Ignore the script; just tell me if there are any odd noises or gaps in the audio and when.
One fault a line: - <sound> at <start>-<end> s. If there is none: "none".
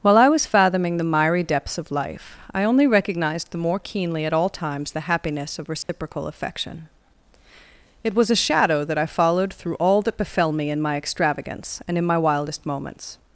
- dropout at 5.8-5.9 s